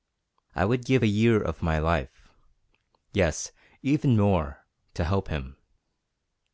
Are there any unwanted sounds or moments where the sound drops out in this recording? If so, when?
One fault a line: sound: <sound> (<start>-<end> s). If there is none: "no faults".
no faults